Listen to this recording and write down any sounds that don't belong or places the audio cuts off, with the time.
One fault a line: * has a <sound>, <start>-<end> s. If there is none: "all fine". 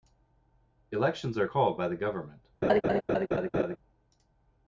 * has a laugh, 2.6-3.8 s